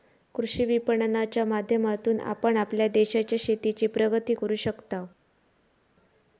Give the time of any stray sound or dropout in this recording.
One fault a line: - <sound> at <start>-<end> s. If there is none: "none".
none